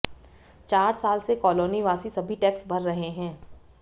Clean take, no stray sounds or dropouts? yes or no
yes